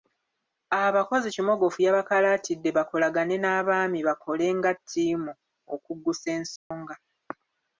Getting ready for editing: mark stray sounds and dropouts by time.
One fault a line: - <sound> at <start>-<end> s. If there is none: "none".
- dropout at 6.6-6.7 s